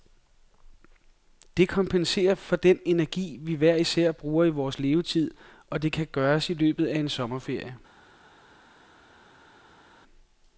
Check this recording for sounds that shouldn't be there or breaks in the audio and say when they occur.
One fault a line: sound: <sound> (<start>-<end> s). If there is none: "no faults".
no faults